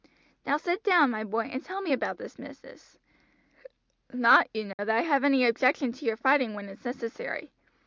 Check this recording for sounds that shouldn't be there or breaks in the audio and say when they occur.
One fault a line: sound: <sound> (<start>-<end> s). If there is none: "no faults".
sound: dropout (4.7-4.8 s)